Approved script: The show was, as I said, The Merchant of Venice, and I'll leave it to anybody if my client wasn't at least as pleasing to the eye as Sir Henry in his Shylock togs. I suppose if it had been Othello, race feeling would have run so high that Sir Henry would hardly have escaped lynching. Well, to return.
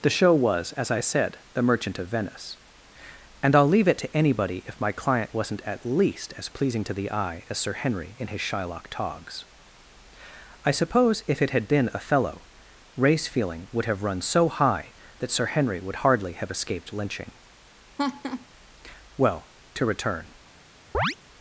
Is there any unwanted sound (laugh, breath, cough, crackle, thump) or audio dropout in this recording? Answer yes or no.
yes